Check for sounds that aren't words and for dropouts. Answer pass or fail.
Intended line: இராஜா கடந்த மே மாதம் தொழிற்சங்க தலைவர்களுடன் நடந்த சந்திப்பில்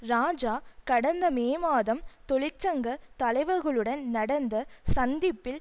pass